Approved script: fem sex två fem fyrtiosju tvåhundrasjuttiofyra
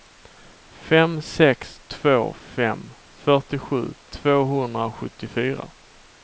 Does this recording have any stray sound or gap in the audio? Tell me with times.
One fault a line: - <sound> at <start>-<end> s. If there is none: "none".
none